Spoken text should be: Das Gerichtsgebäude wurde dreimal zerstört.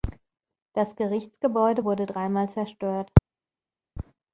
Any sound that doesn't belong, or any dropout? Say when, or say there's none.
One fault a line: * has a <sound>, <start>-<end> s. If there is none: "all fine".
all fine